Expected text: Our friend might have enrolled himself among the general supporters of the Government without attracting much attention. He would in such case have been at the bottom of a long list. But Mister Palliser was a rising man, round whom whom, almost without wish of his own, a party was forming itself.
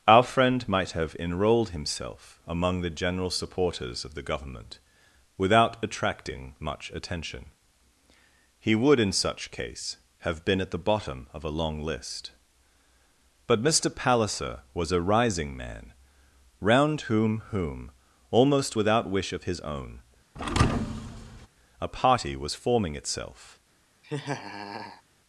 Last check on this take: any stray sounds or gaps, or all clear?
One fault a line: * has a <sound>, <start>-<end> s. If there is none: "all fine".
* has a thud, 20.4-21.5 s
* has a laugh, 24.0-25.0 s